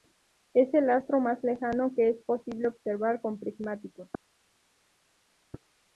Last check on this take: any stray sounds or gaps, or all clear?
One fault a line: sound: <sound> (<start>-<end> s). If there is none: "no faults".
no faults